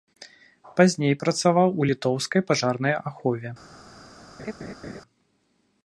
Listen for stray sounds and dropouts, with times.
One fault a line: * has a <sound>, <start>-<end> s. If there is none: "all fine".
* has a laugh, 4.4-5.0 s